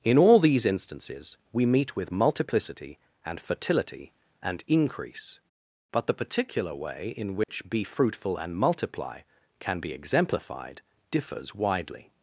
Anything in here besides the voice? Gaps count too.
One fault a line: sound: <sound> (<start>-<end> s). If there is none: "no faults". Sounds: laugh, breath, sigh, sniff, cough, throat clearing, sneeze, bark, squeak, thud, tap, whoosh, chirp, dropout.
sound: dropout (7.4-7.5 s)